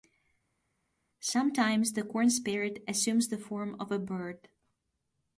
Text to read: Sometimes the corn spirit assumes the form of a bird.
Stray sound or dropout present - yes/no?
no